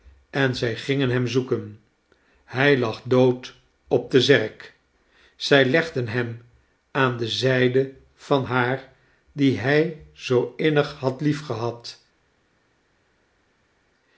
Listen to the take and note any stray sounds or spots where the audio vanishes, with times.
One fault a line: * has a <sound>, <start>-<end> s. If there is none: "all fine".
all fine